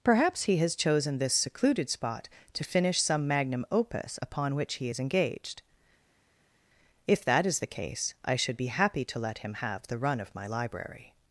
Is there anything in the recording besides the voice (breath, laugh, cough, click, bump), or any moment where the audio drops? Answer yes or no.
no